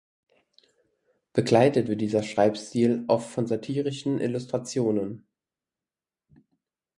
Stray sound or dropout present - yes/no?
no